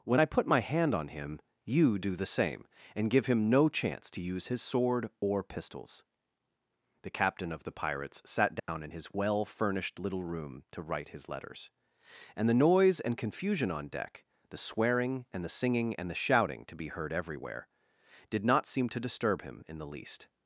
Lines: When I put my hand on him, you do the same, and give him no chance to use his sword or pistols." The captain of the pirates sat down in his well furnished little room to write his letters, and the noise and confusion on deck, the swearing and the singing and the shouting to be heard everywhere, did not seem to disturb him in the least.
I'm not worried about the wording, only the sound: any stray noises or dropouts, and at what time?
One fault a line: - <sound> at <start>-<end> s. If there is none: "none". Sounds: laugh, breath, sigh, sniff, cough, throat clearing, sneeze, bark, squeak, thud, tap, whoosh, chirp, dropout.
- dropout at 8.6-8.7 s